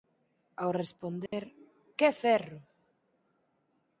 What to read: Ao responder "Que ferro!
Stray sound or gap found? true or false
true